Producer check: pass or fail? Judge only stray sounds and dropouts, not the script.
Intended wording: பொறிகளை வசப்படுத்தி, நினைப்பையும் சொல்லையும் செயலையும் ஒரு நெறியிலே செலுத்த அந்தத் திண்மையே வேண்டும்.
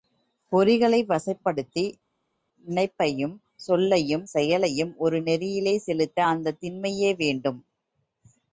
pass